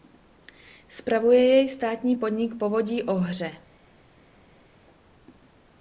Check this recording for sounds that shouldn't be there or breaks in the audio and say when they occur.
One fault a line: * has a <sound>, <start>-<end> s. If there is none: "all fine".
all fine